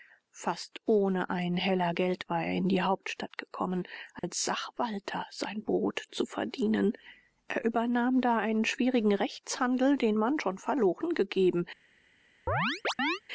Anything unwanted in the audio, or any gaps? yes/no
yes